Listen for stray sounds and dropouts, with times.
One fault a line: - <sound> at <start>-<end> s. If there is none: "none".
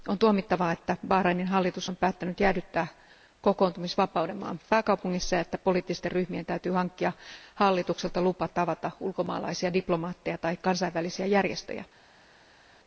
none